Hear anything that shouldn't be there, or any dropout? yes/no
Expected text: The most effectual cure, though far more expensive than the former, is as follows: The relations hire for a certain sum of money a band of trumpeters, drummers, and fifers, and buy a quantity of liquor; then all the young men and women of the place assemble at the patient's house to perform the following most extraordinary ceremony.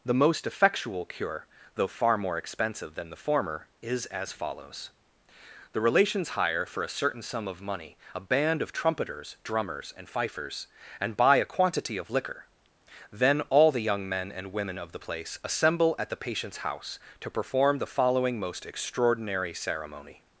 no